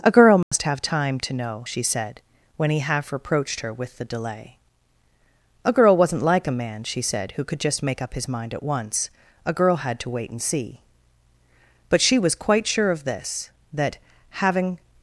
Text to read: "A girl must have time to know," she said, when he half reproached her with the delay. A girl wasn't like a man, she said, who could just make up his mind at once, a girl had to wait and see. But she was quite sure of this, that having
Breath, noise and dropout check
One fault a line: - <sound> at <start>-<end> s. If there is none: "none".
- dropout at 0.4-0.5 s